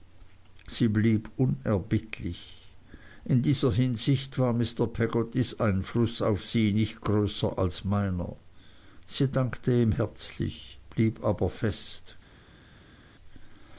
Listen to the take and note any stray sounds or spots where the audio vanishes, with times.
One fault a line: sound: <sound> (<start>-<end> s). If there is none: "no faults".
no faults